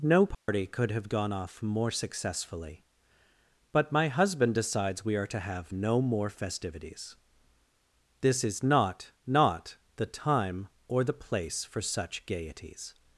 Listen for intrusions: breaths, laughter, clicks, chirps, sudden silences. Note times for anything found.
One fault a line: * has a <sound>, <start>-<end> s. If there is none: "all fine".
* has a dropout, 0.3-0.5 s